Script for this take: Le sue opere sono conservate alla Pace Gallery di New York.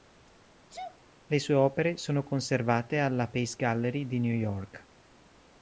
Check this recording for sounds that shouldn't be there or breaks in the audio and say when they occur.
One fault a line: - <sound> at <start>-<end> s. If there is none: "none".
- sneeze at 0.7-1.0 s